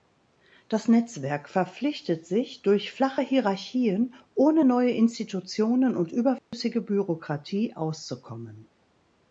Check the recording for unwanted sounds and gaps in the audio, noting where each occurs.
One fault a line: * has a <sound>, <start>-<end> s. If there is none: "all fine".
* has a dropout, 6.4-6.5 s